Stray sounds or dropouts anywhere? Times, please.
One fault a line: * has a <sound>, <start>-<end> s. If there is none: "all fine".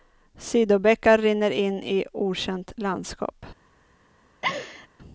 * has a laugh, 4.4-4.9 s